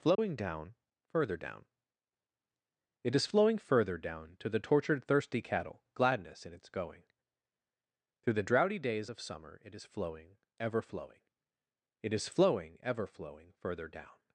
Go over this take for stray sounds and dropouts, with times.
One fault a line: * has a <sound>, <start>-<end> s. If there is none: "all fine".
* has a dropout, 0.1-0.2 s